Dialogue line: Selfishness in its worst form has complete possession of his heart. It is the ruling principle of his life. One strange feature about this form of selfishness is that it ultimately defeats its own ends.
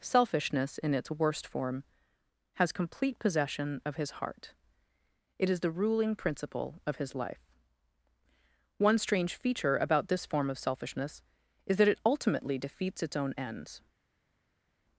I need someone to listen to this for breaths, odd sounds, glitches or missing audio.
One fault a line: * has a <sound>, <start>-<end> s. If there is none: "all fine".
all fine